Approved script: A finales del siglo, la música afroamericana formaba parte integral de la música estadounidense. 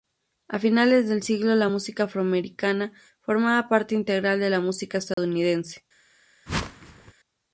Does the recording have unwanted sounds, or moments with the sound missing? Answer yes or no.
yes